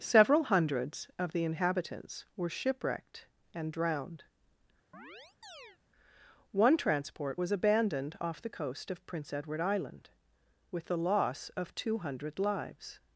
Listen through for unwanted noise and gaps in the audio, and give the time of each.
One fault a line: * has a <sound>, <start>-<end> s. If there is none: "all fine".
* has a chirp, 4.9-5.8 s